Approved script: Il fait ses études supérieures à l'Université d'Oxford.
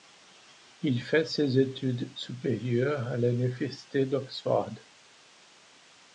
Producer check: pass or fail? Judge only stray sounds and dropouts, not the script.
pass